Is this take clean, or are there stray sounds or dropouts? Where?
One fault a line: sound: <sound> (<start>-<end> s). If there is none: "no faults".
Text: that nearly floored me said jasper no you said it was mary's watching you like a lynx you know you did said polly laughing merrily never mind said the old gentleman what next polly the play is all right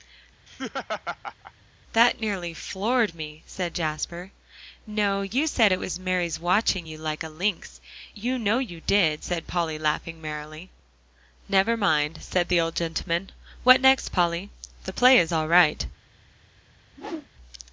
sound: laugh (0.5-1.5 s)
sound: whoosh (16.9-17.3 s)